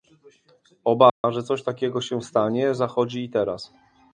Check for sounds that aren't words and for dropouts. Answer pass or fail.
fail